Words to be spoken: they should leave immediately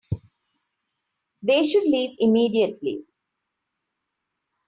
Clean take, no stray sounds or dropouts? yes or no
yes